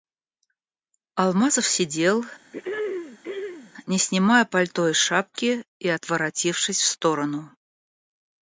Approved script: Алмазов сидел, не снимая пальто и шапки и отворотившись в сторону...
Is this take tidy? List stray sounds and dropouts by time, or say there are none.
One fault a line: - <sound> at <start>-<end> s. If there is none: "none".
- throat clearing at 2.5-3.7 s